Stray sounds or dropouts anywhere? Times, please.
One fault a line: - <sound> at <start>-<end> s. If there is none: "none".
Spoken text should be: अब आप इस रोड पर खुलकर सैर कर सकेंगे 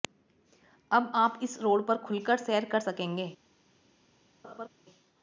- laugh at 4.4-4.7 s